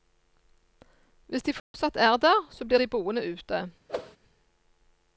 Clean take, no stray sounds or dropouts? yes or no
no